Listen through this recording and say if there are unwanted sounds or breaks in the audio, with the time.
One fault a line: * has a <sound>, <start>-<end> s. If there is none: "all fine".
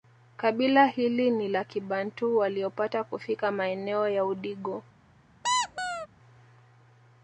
* has a squeak, 5.4-6.1 s